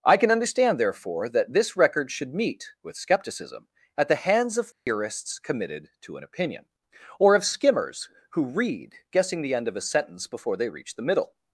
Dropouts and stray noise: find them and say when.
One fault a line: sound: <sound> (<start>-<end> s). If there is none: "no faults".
sound: dropout (4.7-4.9 s)